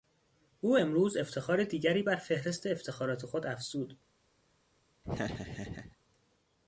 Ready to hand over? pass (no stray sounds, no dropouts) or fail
fail